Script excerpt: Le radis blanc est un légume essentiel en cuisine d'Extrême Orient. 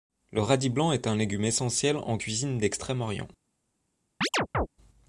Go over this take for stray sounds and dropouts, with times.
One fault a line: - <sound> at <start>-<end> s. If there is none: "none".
- chirp at 4.2-4.7 s